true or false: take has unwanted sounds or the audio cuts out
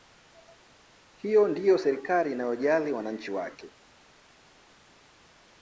false